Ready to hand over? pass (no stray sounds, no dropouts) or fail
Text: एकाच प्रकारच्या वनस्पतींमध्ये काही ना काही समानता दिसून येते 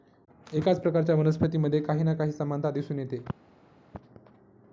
pass